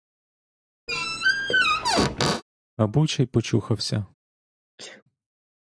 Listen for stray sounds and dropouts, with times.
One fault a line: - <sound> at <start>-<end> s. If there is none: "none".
- squeak at 0.9-2.4 s
- sneeze at 4.8-5.0 s